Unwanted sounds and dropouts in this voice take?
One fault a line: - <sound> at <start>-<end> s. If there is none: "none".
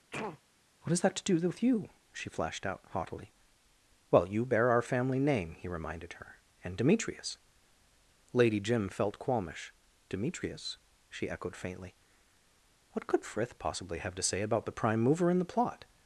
- sneeze at 0.1-0.4 s